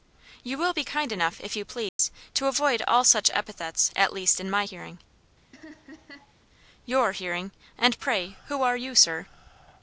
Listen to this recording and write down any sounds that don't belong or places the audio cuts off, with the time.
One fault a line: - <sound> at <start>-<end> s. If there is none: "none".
- dropout at 1.9-2.0 s
- laugh at 5.5-6.3 s